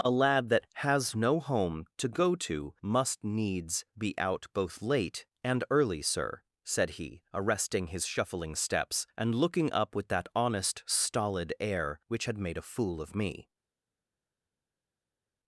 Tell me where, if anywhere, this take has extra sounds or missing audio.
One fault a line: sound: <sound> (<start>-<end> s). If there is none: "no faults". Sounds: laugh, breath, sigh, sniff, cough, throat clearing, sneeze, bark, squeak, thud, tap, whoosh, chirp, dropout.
no faults